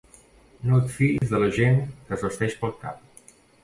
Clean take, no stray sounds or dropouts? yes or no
no